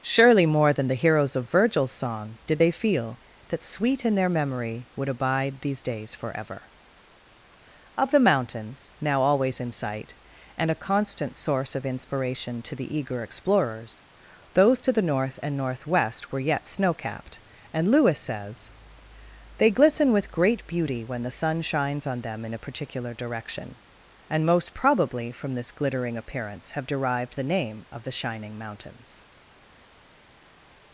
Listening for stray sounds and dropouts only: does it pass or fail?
pass